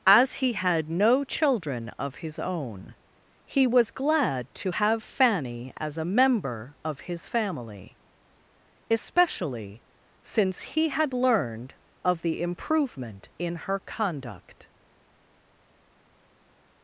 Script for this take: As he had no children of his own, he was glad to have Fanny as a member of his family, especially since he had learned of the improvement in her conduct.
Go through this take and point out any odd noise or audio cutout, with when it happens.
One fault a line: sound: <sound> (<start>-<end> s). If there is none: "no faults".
no faults